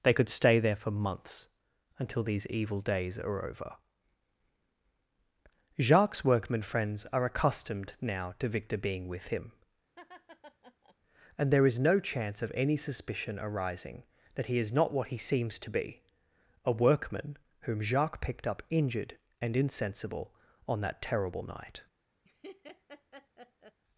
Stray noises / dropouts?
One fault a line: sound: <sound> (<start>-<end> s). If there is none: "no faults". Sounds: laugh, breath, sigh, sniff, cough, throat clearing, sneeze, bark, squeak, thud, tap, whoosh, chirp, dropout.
sound: laugh (10.0-11.0 s)
sound: laugh (22.2-23.8 s)